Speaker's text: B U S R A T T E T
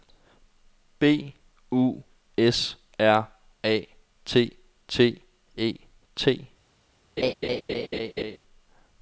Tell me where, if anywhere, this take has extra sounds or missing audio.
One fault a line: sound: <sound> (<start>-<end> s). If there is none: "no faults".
sound: laugh (7.2-8.4 s)